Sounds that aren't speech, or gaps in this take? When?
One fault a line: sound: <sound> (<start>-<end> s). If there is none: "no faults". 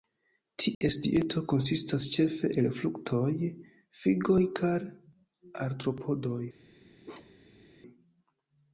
sound: dropout (0.7-0.8 s)
sound: bark (7.0-7.6 s)